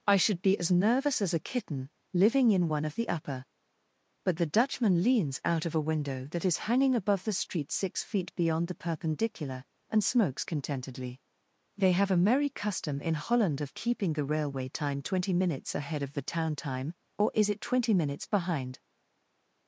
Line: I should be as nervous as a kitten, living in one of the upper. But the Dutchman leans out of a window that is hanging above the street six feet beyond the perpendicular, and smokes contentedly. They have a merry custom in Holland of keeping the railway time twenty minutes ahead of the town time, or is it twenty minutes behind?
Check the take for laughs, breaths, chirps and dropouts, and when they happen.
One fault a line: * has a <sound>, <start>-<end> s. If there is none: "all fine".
all fine